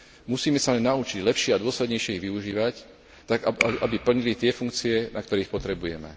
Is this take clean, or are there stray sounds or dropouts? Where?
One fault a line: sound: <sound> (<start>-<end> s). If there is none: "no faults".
no faults